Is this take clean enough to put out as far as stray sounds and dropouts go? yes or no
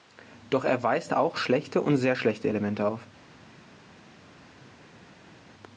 yes